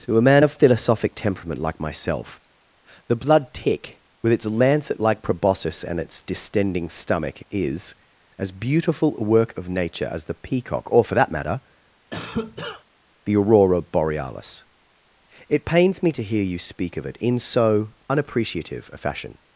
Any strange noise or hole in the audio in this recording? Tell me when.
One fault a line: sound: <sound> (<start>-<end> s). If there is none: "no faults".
sound: cough (12.1-12.8 s)